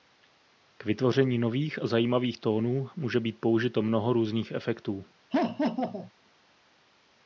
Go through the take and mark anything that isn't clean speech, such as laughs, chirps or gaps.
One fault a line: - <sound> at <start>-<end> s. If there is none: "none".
- laugh at 5.3-6.1 s